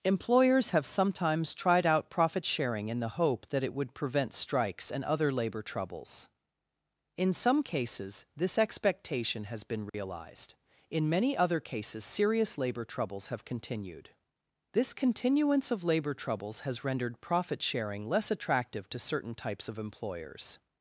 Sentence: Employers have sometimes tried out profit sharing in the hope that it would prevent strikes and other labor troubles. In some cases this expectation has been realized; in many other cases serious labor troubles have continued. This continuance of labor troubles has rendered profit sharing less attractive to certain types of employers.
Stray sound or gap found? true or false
true